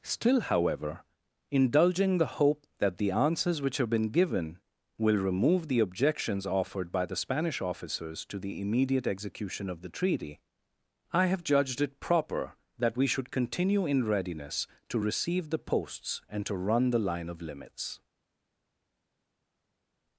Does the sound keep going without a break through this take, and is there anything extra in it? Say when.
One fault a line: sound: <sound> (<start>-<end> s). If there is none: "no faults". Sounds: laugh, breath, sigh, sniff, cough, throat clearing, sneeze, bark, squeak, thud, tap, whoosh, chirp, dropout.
no faults